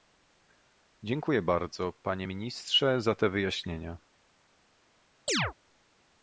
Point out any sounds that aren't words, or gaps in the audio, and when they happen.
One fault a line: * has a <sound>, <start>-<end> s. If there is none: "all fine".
* has a chirp, 5.3-5.5 s